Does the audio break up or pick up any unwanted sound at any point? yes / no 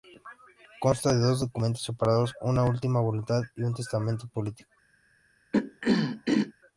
yes